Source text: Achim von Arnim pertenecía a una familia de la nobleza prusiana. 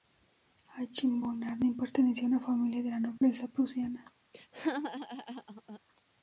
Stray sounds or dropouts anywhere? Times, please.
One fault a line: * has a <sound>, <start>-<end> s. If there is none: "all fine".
* has a dropout, 3.2-3.2 s
* has a laugh, 4.3-5.8 s